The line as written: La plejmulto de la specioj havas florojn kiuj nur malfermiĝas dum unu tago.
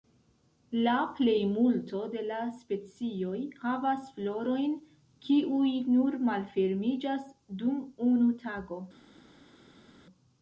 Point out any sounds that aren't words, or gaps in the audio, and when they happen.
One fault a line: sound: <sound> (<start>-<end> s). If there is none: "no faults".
no faults